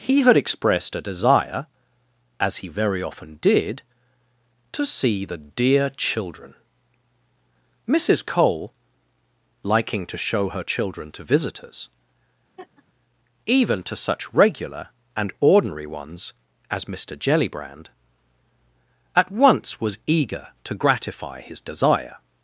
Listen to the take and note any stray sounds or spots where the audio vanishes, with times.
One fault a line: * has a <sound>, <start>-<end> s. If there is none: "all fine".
* has a laugh, 12.6-12.8 s